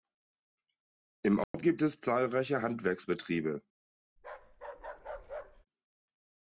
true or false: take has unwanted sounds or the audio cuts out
true